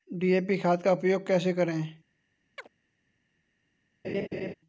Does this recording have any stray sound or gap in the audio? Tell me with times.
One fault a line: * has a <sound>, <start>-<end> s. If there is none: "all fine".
* has a chirp, 2.6-2.7 s
* has a laugh, 4.0-4.5 s